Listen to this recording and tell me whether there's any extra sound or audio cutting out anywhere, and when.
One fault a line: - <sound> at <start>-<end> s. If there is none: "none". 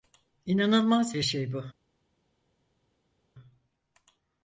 none